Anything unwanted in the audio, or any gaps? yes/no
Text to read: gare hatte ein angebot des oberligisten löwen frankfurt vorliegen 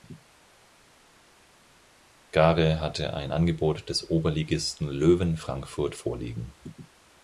no